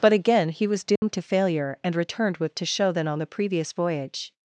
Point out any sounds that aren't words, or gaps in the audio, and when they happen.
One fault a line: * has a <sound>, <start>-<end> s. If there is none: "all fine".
* has a dropout, 1.0-1.0 s